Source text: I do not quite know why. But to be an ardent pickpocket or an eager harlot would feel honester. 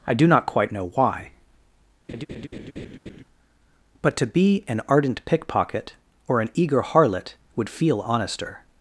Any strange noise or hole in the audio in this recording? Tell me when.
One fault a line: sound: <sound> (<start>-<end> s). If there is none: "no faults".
sound: laugh (2.1-3.2 s)